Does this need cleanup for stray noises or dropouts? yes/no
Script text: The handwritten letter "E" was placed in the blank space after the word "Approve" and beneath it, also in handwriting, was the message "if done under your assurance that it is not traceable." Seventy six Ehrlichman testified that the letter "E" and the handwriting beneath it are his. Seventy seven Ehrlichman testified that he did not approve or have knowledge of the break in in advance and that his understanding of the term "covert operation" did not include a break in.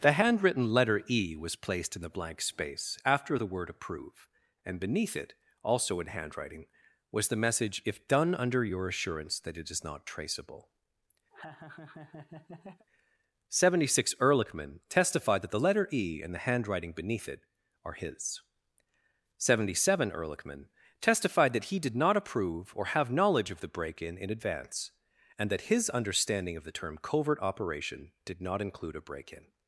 yes